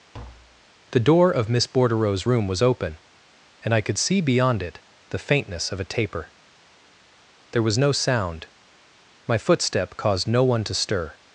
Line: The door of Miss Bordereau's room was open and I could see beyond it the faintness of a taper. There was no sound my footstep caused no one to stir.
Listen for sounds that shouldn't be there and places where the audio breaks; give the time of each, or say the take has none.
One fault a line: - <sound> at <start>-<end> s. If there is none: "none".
- tap at 0.1-0.7 s